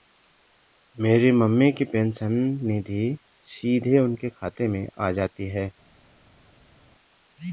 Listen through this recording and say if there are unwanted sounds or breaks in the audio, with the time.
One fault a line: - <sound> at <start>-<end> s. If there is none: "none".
none